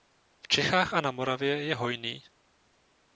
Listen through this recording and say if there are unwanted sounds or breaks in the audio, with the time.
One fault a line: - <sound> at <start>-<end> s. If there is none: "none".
none